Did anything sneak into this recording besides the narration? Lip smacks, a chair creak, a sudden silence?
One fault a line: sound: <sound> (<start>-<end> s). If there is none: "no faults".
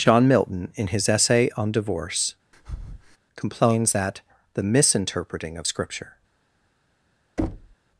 sound: breath (2.5-3.2 s)
sound: thud (7.4-7.8 s)